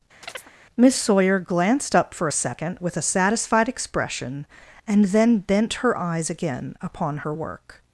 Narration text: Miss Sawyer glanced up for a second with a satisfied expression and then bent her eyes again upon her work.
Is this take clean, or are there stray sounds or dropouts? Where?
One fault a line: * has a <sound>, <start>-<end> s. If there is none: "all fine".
* has a chirp, 0.2-0.5 s